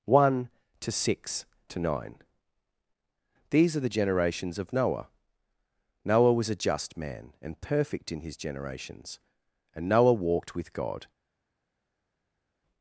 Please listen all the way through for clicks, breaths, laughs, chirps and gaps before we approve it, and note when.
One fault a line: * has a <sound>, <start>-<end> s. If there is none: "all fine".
all fine